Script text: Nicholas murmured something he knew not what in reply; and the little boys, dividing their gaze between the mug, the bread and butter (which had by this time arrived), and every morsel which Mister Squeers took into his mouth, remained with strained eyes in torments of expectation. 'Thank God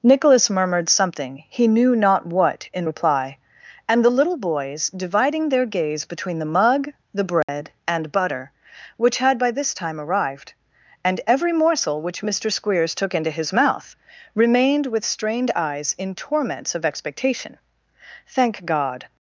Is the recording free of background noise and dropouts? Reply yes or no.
no